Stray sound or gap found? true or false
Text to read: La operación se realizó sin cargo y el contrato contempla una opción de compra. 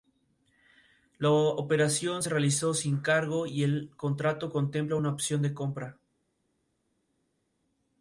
false